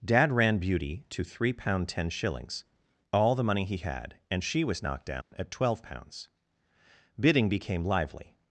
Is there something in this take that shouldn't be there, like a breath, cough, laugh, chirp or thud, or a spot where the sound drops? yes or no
yes